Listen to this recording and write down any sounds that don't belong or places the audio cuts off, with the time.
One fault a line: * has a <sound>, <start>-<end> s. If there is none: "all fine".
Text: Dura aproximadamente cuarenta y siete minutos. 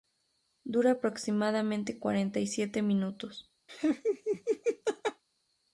* has a laugh, 3.7-5.2 s